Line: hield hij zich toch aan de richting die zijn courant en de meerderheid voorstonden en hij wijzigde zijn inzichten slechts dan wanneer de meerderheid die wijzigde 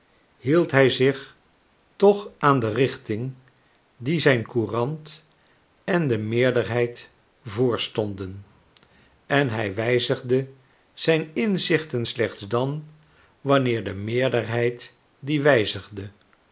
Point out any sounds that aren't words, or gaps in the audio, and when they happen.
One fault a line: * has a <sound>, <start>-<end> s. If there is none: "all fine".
all fine